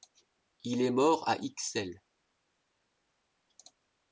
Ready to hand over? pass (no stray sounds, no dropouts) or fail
pass